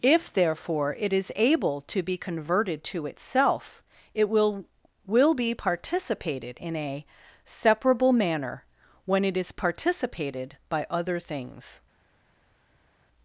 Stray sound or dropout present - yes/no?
no